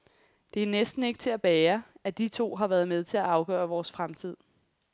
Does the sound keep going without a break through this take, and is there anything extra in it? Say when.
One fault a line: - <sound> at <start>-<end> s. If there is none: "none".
none